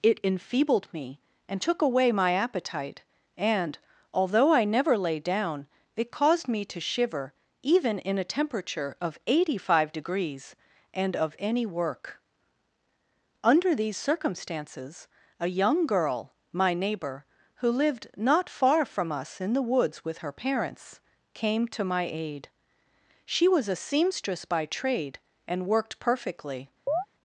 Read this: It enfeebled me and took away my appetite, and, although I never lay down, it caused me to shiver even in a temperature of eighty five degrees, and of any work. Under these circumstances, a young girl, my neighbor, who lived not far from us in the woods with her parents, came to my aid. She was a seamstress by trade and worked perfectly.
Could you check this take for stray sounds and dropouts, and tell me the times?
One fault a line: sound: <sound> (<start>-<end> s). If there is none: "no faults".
sound: chirp (26.9-27.1 s)